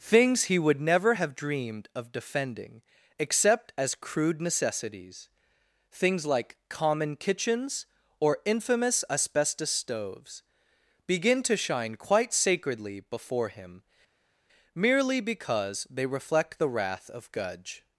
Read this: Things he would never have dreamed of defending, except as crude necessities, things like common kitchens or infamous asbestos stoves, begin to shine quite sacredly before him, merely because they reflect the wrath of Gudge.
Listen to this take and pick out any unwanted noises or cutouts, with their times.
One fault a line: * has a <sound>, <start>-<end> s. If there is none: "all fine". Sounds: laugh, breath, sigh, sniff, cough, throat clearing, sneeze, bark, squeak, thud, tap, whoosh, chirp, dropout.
all fine